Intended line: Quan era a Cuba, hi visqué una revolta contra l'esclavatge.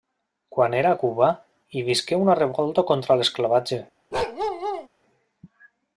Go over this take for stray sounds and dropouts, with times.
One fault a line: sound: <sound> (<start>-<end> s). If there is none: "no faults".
sound: bark (4.1-4.9 s)